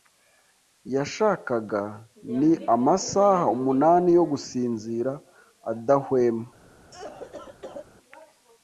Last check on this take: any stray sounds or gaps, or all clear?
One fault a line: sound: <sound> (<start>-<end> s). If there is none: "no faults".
sound: cough (6.9-7.9 s)